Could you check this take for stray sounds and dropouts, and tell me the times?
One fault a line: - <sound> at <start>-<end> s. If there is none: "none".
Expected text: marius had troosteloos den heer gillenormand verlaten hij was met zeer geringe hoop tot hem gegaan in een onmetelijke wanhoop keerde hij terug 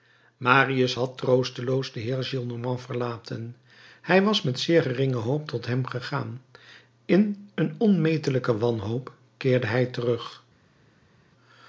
none